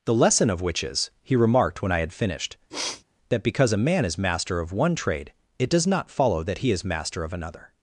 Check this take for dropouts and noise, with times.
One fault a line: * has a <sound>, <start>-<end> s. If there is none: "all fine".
* has a sniff, 2.7-3.0 s